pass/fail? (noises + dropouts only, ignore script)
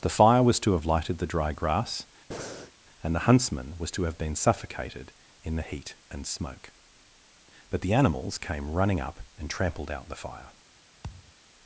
fail